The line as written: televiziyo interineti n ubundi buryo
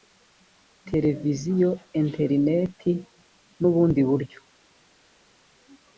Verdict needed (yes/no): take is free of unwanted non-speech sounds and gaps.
yes